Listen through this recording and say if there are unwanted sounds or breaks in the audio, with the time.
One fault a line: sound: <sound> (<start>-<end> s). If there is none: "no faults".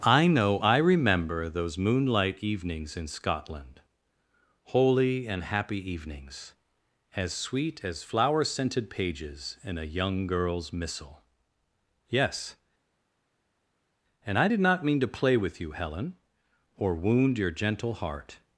no faults